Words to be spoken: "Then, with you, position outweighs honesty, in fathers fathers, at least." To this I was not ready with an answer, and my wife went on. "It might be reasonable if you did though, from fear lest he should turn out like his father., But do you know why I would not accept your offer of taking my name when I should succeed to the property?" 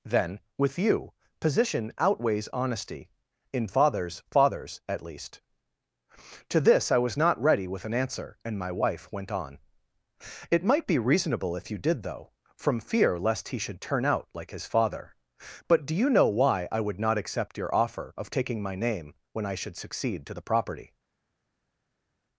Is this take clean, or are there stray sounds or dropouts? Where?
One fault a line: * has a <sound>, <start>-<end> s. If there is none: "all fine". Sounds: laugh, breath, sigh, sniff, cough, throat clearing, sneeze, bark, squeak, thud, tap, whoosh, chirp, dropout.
all fine